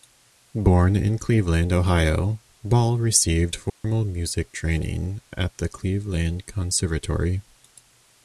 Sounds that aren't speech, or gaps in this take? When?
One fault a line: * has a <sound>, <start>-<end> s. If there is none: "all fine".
* has a dropout, 3.7-3.8 s